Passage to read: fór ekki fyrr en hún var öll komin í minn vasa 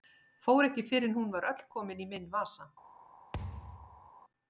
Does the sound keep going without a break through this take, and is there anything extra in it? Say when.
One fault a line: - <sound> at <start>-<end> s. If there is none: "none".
- thud at 3.3-4.1 s